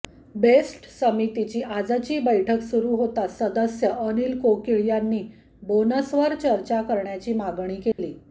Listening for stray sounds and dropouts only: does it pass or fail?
fail